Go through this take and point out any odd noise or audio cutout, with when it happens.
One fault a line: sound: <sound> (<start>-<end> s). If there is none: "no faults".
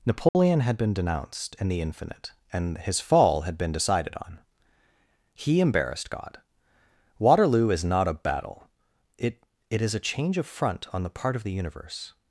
sound: dropout (0.3-0.3 s)